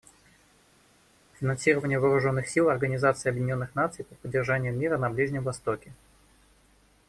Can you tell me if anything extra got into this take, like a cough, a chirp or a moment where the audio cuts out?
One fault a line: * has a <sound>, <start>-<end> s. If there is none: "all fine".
all fine